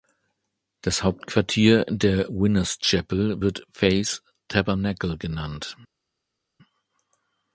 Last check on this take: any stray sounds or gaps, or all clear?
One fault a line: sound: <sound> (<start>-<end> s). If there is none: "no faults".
no faults